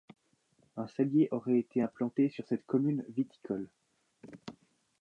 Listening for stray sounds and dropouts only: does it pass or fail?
pass